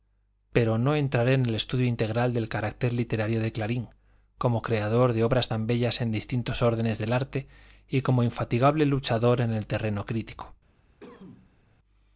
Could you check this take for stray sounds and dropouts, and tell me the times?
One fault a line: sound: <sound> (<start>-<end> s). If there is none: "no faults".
sound: cough (11.0-11.6 s)